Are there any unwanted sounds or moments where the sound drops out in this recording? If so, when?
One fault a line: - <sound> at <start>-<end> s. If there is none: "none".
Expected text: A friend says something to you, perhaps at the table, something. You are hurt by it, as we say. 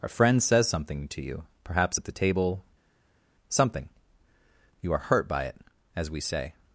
none